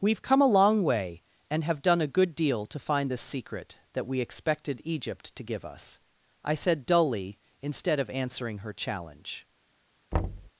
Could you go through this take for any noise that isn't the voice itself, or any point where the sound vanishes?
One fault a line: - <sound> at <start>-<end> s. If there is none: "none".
- thud at 10.1-10.5 s